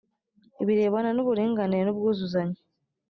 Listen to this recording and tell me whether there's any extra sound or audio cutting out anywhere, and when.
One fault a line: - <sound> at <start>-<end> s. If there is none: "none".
none